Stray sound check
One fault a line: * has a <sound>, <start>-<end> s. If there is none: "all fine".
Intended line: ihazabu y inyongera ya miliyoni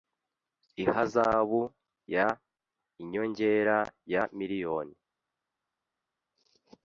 all fine